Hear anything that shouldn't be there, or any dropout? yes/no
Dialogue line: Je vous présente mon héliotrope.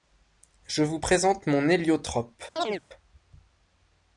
yes